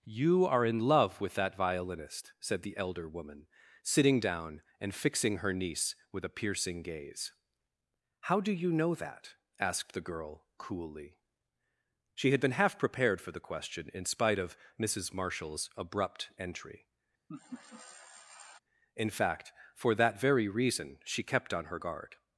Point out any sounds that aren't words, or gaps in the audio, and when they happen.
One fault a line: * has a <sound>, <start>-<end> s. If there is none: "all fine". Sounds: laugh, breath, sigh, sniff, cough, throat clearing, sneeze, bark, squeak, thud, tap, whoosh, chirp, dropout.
* has a laugh, 17.3-18.6 s